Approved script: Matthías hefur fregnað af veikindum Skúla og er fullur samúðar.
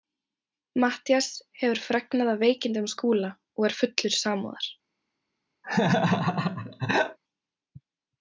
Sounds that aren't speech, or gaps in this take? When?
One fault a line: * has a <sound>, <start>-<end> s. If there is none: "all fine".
* has a laugh, 5.6-7.2 s